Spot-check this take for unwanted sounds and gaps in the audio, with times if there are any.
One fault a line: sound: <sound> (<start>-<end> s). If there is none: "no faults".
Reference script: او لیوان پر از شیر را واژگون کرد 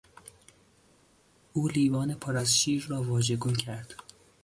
no faults